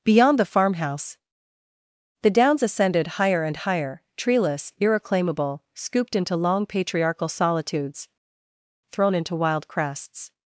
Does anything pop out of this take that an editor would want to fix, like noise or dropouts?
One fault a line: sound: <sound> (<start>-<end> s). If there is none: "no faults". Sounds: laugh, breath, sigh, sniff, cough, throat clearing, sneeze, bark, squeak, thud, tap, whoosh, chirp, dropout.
no faults